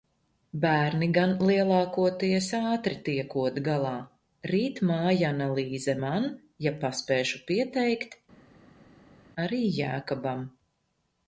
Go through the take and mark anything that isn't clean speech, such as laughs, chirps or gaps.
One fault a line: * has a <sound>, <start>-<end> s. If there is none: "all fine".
all fine